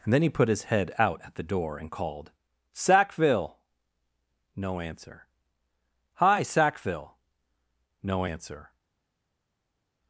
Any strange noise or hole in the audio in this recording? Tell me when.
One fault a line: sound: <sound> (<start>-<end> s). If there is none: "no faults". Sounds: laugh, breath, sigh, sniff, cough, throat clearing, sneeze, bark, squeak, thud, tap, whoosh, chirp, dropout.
no faults